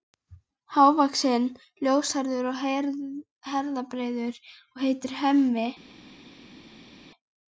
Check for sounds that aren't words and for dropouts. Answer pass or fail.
pass